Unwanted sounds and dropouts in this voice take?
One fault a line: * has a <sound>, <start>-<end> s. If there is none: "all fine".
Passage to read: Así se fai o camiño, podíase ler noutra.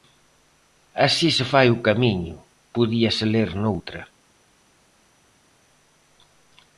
all fine